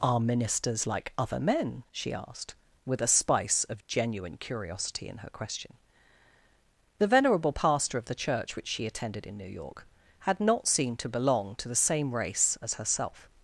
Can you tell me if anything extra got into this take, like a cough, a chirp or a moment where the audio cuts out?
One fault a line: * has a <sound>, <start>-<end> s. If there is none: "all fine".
all fine